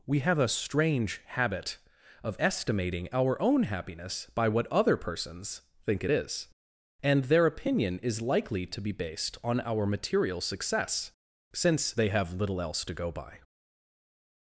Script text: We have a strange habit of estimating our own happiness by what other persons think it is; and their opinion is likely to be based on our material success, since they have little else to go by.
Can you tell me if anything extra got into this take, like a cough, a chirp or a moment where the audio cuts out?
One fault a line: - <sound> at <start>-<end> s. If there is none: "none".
none